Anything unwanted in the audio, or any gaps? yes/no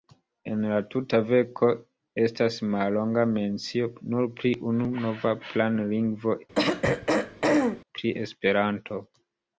yes